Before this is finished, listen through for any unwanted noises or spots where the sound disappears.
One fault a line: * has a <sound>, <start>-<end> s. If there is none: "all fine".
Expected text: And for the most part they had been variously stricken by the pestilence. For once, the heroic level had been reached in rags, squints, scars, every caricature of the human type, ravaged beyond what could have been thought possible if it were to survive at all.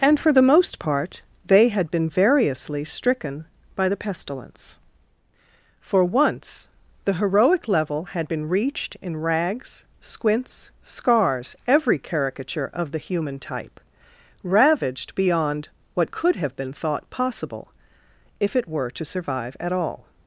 all fine